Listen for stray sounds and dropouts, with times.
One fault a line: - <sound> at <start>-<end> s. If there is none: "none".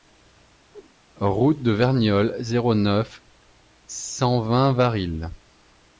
- whoosh at 0.7-0.9 s